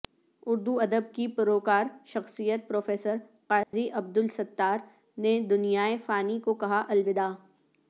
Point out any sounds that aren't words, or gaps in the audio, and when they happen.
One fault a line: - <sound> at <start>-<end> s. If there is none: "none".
- dropout at 3.6-3.7 s